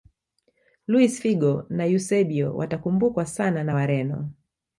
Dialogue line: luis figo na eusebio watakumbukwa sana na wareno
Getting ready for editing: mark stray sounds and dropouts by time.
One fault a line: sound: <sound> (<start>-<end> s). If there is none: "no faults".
no faults